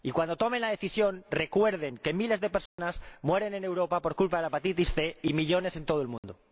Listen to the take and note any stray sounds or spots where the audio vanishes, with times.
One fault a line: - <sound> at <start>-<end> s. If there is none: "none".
- dropout at 2.7-2.8 s
- dropout at 6.2-6.2 s